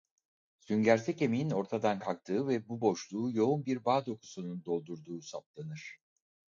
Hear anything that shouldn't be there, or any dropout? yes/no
no